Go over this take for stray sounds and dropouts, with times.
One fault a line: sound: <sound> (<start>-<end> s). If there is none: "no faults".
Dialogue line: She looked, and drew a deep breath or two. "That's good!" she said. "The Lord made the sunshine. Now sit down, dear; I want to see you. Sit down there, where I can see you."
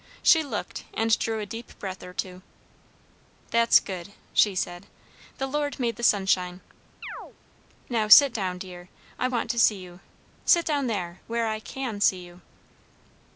sound: chirp (7.0-7.4 s)